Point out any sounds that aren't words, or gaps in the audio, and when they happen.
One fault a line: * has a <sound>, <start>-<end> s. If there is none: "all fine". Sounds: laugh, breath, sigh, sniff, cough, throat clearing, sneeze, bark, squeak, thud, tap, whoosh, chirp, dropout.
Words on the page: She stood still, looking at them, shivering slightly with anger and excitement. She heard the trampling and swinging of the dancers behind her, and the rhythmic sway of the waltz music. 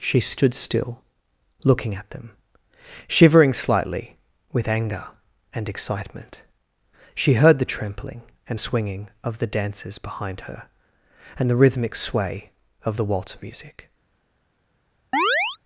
* has a chirp, 15.1-15.6 s